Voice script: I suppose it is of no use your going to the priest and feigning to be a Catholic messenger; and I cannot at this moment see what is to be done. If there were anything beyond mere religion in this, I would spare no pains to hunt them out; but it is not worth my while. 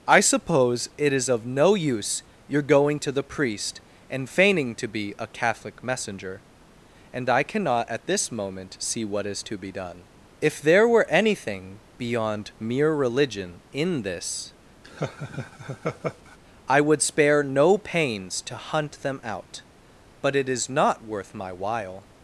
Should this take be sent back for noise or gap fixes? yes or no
yes